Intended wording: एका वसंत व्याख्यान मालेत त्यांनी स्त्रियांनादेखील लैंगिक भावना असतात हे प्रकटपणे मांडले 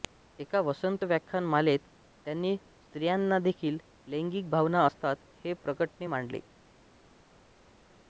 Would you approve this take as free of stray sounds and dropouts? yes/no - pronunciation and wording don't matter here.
yes